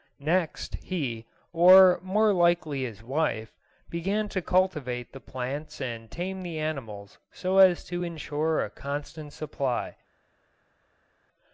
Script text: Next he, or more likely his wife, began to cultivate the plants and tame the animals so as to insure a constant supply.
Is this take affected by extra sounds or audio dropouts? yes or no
no